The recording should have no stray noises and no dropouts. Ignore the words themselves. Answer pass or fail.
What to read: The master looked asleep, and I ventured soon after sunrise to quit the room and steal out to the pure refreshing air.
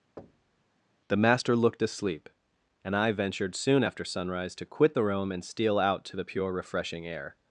fail